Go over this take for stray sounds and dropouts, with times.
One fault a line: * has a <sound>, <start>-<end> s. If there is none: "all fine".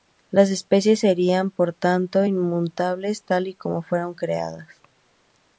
all fine